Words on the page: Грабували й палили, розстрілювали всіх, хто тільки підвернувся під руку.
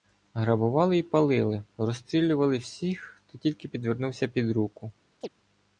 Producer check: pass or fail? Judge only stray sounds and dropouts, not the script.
fail